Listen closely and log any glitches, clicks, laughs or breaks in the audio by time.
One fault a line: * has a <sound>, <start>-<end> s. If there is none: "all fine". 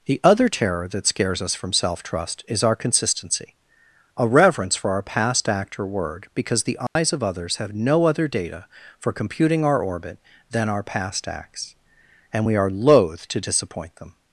* has a dropout, 6.9-7.0 s